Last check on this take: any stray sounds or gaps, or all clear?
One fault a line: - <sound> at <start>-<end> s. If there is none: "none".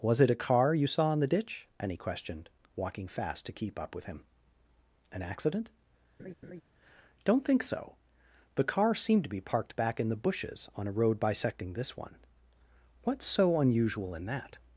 - laugh at 6.2-6.6 s